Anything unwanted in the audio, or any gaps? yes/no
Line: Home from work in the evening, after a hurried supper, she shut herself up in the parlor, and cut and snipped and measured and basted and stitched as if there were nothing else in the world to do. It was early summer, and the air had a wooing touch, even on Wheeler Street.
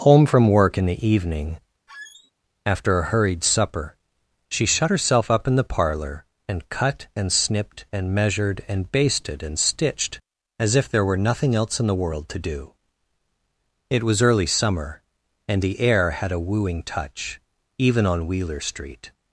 yes